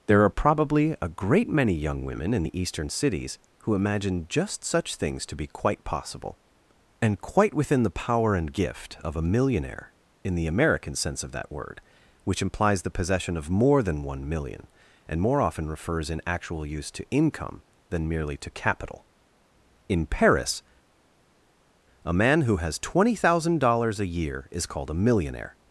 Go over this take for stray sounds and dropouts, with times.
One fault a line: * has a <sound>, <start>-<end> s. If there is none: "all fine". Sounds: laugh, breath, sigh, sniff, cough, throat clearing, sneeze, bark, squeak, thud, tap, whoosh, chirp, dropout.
all fine